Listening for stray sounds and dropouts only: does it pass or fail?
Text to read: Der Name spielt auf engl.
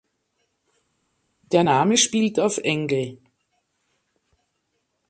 pass